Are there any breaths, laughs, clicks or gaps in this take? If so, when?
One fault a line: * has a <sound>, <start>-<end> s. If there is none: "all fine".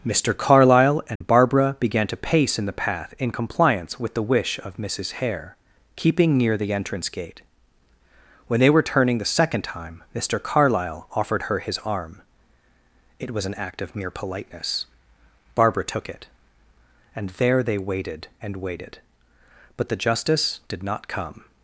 * has a dropout, 1.2-1.2 s